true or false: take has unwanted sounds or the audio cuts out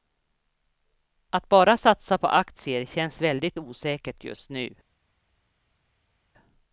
false